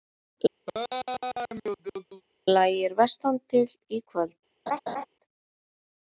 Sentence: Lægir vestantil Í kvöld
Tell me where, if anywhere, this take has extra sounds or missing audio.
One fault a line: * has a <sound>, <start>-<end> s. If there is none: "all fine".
* has a laugh, 0.7-2.2 s
* has a laugh, 4.7-5.1 s